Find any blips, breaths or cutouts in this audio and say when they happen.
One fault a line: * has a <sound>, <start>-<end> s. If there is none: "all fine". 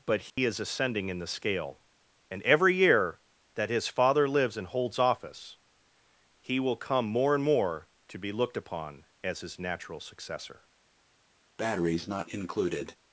* has a dropout, 0.3-0.4 s
* has a breath, 11.6-13.0 s